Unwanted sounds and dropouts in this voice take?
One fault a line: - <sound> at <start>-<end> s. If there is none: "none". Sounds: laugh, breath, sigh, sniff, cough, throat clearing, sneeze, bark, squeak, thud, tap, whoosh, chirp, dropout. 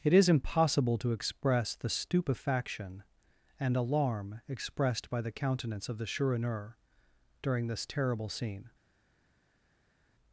none